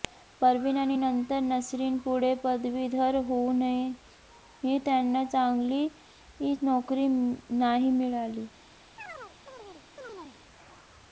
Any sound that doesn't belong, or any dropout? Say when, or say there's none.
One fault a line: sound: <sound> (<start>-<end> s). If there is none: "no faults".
sound: chirp (9.0-10.4 s)